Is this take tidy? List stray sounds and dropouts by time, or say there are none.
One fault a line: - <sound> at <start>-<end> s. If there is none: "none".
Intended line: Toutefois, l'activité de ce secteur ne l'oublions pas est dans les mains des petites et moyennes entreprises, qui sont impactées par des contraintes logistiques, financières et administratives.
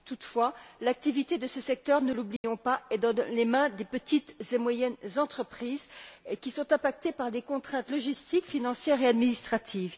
- dropout at 2.4-2.4 s